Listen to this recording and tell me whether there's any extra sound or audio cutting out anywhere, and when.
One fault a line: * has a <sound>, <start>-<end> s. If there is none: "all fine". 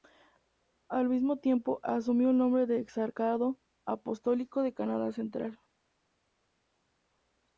all fine